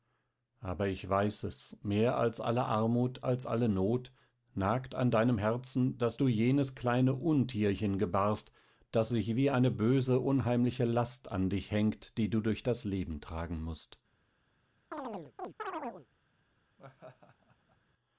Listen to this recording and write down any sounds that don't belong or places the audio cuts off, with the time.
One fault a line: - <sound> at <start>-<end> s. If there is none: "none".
- chirp at 14.9-16.1 s
- laugh at 16.8-17.8 s